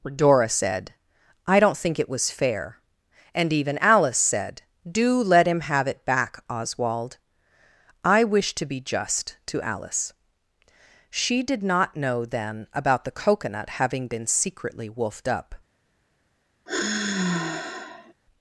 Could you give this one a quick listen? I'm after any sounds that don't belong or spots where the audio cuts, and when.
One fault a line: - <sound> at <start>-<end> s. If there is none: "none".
- sigh at 16.7-18.1 s